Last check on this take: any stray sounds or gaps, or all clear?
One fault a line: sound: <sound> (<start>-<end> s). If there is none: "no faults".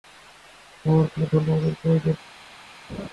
sound: laugh (2.9-3.1 s)